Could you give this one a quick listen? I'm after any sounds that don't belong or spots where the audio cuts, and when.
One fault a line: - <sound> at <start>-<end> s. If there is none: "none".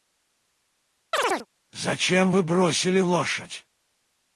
- chirp at 1.1-1.5 s